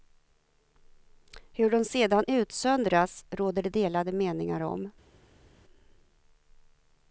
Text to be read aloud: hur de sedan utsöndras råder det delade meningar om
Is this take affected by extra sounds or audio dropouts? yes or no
no